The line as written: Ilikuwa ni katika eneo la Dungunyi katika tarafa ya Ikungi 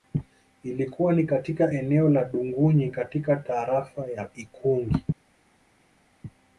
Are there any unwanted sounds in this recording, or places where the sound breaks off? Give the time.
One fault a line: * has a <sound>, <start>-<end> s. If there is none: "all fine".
all fine